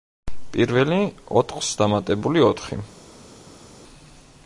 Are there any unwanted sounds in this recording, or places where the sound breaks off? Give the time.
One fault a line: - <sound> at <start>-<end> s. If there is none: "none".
none